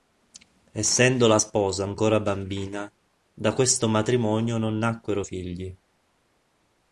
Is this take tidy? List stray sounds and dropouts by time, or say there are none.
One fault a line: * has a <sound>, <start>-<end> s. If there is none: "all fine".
all fine